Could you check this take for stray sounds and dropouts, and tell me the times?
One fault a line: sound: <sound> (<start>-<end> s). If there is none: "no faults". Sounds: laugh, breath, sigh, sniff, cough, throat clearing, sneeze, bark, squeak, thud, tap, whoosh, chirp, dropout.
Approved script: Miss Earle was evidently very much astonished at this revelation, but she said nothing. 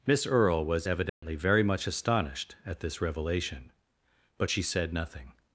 sound: dropout (1.1-1.2 s)